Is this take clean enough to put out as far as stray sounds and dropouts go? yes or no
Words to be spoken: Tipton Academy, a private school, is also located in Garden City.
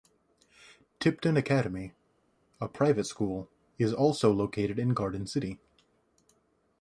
yes